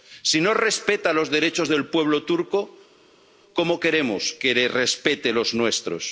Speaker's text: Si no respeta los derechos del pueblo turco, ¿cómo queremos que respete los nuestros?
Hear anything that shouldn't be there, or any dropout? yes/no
no